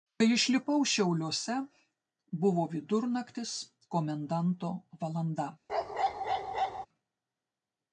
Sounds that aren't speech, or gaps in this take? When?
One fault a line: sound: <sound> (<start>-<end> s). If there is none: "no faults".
sound: bark (5.7-6.9 s)